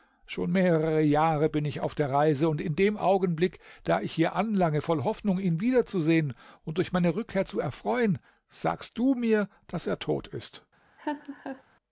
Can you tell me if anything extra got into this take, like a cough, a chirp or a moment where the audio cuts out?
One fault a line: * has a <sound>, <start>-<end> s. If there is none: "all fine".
* has a laugh, 11.0-11.6 s